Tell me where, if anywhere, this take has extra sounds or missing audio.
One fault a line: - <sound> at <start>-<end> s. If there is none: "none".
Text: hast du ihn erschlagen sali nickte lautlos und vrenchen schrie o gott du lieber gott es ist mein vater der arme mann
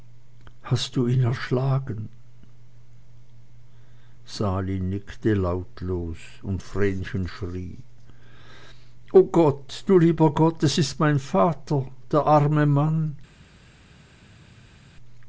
none